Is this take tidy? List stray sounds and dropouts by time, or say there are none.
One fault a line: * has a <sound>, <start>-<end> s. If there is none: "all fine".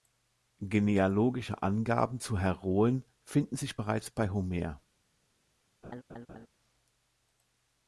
* has a laugh, 5.8-6.5 s